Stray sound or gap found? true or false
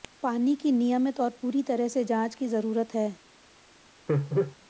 true